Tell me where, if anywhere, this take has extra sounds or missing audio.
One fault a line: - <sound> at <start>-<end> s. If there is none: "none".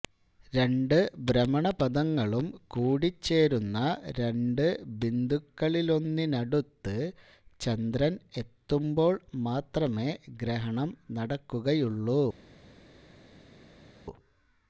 none